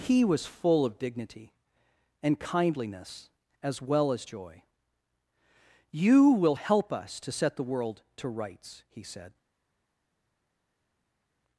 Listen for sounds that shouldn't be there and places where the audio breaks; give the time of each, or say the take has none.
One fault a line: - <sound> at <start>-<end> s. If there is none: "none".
none